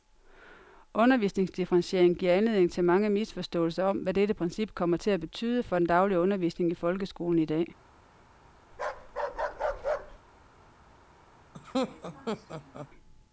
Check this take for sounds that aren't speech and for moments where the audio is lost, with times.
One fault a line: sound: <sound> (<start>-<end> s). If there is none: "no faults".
sound: bark (8.7-10.2 s)
sound: laugh (11.5-12.9 s)